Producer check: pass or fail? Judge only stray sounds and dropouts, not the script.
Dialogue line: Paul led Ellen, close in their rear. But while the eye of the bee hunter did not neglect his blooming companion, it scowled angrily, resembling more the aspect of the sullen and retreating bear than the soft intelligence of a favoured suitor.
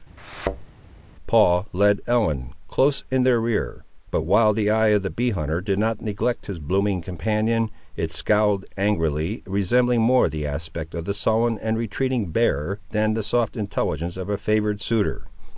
fail